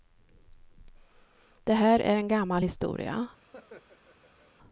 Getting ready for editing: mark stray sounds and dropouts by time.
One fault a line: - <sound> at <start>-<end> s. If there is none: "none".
- laugh at 3.5-4.5 s